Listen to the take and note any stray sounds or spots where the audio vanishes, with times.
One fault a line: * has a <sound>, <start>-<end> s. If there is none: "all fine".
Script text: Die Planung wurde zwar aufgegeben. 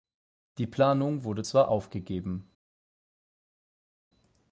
all fine